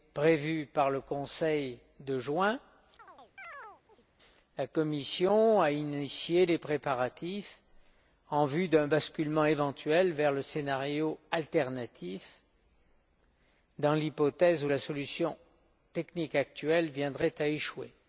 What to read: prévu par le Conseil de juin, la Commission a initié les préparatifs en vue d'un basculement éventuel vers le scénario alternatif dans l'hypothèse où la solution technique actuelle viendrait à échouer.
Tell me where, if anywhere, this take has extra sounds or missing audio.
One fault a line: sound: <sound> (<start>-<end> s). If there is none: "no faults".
sound: chirp (3.0-4.1 s)